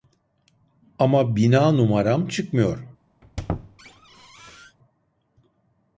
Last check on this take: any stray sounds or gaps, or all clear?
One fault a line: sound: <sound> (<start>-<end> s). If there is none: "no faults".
sound: squeak (3.2-4.8 s)